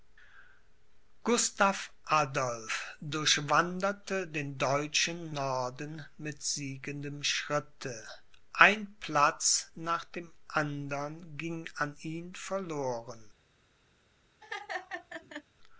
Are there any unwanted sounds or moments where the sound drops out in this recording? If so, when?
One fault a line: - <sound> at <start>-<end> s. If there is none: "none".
- laugh at 14.4-15.4 s